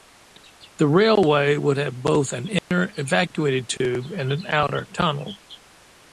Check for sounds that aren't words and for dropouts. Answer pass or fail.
fail